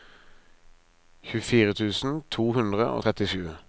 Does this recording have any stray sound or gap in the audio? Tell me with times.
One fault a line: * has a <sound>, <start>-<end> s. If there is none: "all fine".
all fine